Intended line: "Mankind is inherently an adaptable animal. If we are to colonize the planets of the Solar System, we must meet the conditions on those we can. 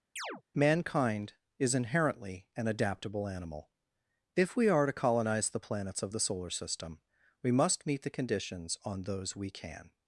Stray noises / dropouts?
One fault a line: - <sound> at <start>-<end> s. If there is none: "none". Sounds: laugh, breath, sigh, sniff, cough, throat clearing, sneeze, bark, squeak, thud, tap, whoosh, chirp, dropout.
- chirp at 0.2-0.4 s